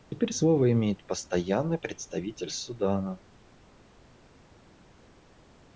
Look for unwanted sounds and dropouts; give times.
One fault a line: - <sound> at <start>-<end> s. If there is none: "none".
none